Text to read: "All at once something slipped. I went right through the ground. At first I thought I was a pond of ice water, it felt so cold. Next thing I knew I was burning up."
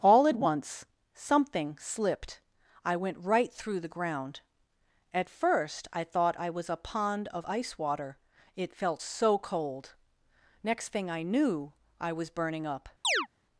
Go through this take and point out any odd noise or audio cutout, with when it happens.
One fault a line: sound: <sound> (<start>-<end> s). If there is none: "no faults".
sound: chirp (13.0-13.3 s)